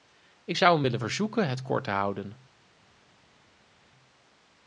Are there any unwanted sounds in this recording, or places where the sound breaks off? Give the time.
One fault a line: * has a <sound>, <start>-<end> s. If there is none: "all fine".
all fine